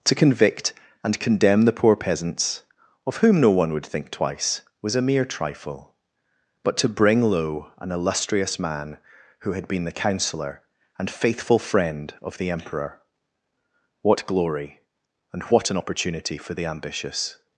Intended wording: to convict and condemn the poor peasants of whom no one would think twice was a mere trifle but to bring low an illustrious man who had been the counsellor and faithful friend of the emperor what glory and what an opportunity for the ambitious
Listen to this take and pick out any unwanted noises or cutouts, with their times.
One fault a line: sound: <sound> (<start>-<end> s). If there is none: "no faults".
no faults